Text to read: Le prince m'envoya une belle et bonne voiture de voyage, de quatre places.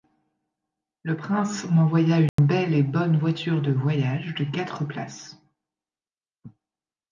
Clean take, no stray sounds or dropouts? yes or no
no